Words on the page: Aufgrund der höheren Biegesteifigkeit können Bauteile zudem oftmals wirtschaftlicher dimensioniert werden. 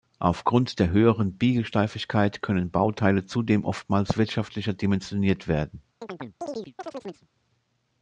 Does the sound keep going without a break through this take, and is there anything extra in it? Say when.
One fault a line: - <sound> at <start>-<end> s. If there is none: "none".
- chirp at 6.0-7.3 s